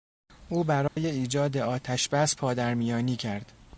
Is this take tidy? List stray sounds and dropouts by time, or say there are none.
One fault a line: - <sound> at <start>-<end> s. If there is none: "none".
- dropout at 0.9-1.0 s